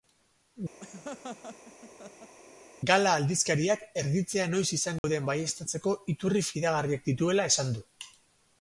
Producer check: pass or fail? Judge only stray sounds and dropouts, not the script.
fail